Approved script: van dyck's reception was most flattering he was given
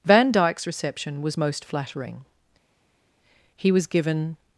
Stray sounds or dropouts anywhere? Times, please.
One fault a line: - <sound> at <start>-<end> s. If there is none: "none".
none